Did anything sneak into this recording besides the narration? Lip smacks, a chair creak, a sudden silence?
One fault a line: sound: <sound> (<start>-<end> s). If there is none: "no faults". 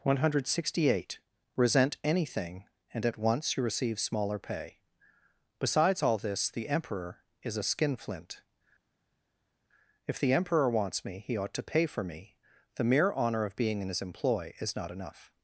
no faults